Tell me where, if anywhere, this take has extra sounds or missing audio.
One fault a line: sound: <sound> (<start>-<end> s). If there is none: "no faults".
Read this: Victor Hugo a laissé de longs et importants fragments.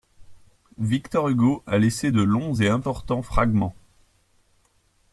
no faults